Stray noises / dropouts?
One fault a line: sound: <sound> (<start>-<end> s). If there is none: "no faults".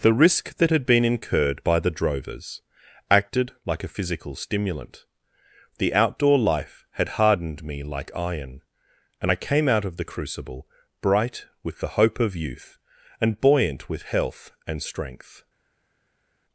no faults